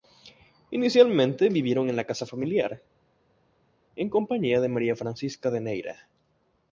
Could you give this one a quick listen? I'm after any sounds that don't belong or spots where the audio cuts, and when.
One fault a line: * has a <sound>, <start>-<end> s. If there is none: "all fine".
all fine